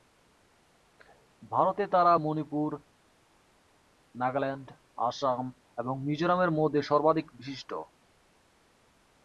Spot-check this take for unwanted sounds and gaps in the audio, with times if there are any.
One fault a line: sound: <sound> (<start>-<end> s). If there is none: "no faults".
no faults